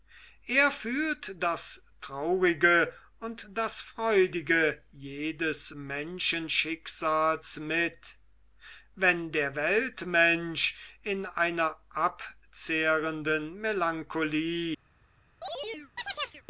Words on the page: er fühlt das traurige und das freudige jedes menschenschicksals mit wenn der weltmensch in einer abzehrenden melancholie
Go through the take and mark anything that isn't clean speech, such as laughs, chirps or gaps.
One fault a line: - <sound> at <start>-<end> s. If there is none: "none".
- chirp at 15.4-16.4 s